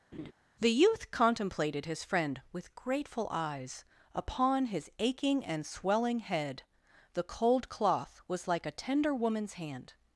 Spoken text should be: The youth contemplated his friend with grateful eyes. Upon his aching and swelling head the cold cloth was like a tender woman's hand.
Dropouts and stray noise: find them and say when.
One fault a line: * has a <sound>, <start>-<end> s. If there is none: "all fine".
* has a laugh, 0.1-0.3 s